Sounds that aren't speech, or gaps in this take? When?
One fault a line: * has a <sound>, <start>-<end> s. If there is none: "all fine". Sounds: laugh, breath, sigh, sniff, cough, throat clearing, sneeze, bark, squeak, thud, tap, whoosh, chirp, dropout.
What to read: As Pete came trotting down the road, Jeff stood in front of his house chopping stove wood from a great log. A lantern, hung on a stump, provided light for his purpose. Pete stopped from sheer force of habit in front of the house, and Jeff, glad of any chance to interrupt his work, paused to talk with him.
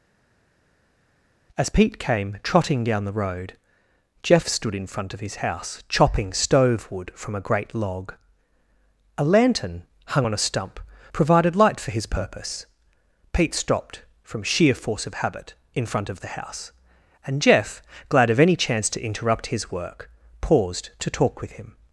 all fine